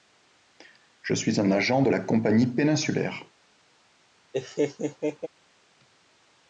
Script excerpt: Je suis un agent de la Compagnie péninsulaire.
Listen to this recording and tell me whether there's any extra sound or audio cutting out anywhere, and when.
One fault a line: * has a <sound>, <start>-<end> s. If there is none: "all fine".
* has a laugh, 4.3-5.3 s